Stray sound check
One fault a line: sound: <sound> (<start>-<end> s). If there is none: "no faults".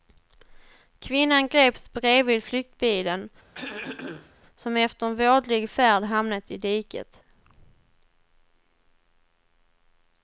sound: throat clearing (3.5-4.3 s)